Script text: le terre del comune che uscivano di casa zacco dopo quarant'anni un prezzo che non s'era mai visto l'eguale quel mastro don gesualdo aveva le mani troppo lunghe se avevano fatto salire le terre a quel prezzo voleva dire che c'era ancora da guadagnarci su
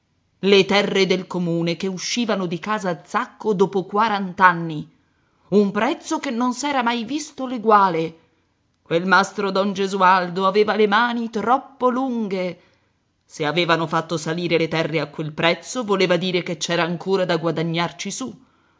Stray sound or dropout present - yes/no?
no